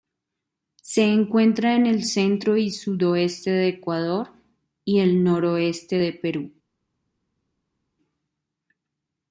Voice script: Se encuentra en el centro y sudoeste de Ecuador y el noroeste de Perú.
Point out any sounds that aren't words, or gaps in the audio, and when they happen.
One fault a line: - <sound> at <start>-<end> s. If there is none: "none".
none